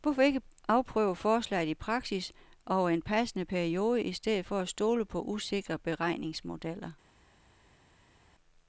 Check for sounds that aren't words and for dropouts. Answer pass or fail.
pass